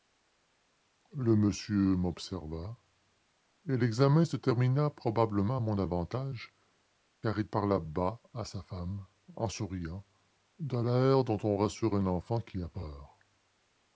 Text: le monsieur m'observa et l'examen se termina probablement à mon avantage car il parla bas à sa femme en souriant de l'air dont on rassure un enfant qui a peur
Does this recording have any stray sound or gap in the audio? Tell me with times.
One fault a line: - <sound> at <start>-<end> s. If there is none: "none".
none